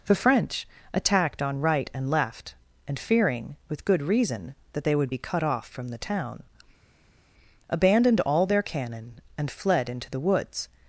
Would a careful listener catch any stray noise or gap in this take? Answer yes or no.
no